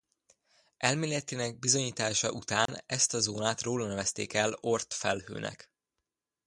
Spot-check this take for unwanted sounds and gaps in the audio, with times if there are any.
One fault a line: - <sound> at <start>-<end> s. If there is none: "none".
- dropout at 2.7-2.7 s